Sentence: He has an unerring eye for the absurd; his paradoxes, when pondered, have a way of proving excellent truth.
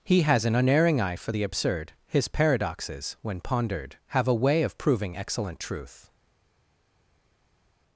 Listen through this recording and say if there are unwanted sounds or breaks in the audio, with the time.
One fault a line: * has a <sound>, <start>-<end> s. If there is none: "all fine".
all fine